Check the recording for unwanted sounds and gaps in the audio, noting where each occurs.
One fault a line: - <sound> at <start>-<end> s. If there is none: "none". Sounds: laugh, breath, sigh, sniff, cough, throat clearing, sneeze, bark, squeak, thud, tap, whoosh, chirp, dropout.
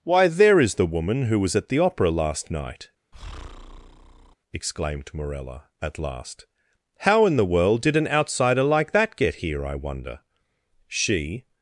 - breath at 3.1-4.4 s